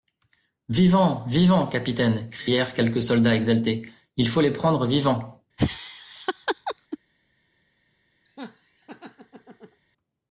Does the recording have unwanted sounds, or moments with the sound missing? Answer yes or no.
yes